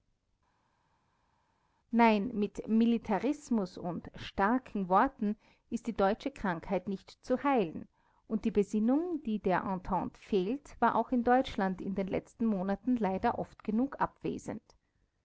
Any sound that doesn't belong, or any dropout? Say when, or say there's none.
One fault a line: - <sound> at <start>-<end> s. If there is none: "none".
none